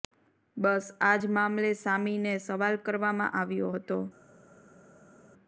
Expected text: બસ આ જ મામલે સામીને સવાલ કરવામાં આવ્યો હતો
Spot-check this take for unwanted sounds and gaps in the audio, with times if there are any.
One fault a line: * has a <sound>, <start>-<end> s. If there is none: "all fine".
all fine